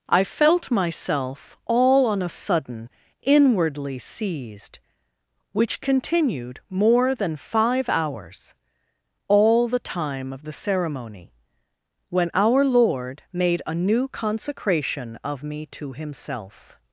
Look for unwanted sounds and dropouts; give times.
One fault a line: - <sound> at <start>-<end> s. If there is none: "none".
none